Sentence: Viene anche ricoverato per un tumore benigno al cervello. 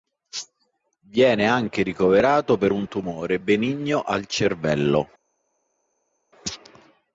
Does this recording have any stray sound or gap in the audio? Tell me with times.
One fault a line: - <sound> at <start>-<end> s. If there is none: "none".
none